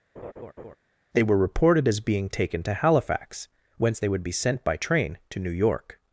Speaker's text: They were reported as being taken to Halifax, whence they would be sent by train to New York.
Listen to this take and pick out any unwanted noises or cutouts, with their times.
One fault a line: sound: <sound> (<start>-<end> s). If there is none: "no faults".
sound: laugh (0.2-0.8 s)